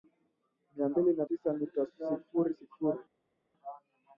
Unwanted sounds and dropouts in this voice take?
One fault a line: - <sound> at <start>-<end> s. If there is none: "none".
none